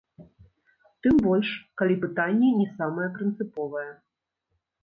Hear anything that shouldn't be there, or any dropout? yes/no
no